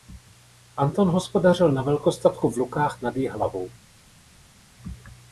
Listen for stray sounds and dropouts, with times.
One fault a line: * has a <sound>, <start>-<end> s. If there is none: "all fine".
all fine